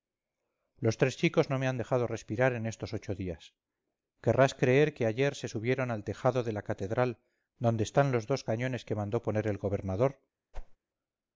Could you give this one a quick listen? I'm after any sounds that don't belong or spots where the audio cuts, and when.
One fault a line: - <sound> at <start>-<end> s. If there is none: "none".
- whoosh at 10.5-10.8 s